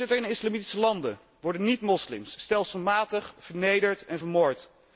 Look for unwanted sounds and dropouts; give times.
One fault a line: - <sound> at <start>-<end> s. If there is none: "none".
none